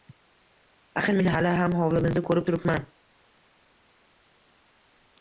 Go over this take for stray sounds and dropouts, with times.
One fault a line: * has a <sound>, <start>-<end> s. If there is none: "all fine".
all fine